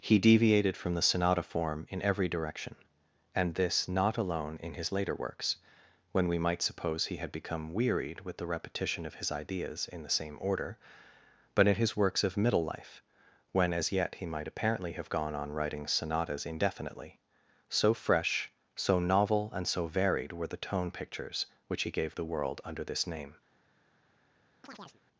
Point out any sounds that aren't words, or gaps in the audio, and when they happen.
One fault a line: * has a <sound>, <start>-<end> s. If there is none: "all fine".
* has a chirp, 24.6-25.0 s